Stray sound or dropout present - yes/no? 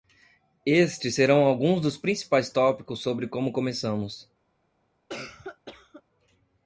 yes